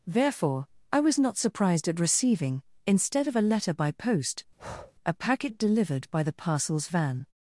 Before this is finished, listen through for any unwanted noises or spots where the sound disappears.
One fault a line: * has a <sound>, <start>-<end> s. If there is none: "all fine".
* has a breath, 4.6-4.9 s